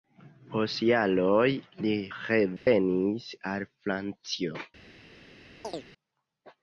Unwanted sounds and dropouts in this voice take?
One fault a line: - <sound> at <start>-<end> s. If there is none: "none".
- dropout at 2.6-2.7 s
- chirp at 5.6-5.9 s